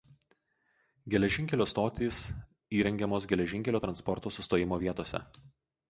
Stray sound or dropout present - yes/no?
no